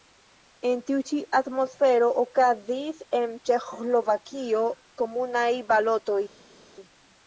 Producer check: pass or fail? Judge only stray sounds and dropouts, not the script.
pass